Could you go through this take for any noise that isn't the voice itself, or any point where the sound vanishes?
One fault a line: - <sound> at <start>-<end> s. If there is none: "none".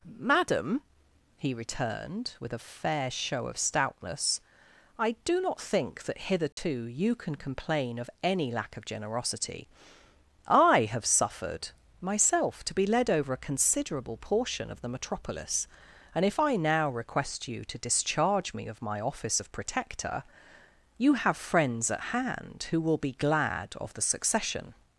- dropout at 6.5-6.6 s